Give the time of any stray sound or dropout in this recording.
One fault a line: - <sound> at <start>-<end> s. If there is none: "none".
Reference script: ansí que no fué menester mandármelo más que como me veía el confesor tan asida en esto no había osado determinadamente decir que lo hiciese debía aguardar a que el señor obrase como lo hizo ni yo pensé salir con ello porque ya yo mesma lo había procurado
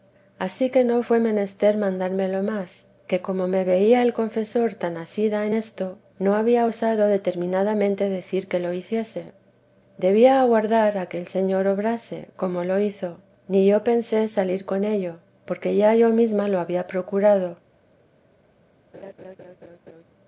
- laugh at 18.9-20.0 s